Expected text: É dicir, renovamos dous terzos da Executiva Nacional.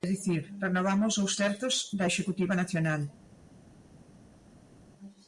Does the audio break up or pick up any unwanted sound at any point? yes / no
no